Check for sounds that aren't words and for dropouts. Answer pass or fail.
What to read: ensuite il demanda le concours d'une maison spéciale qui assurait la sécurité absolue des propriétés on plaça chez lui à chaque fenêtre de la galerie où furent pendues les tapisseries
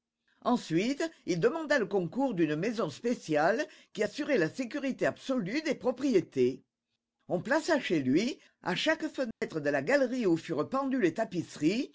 fail